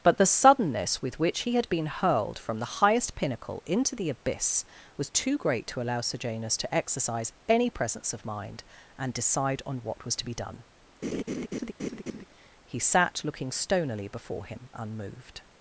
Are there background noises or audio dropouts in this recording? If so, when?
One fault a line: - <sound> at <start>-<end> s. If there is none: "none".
- laugh at 11.0-12.2 s